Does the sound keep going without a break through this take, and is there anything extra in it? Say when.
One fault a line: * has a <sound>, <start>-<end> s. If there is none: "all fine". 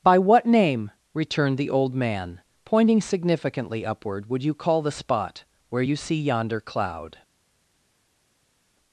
all fine